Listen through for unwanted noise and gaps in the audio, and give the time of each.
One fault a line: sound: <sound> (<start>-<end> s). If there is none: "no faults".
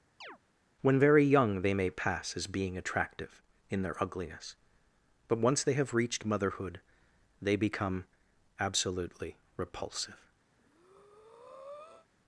sound: chirp (0.2-0.4 s)
sound: breath (10.5-12.1 s)